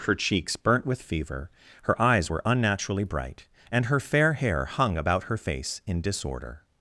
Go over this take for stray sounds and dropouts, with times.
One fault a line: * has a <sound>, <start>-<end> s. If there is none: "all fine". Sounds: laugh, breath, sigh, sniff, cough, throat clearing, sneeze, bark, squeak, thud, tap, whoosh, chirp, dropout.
all fine